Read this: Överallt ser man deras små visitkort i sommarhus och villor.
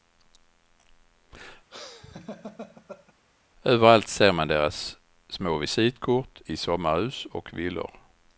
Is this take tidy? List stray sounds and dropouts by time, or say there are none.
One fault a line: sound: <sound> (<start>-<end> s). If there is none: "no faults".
sound: laugh (1.7-3.1 s)